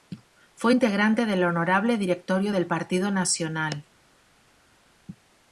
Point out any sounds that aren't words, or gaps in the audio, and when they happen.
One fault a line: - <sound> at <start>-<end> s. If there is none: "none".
none